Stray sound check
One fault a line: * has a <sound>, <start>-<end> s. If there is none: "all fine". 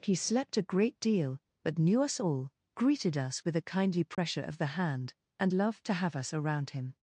* has a dropout, 4.1-4.2 s